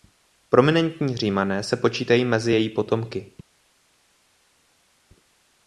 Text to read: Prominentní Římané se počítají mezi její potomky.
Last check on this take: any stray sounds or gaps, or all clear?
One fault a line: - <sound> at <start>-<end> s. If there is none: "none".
none